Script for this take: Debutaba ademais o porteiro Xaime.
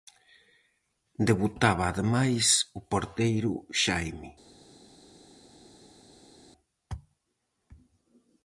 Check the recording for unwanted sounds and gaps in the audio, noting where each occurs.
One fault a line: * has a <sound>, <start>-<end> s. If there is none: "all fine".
all fine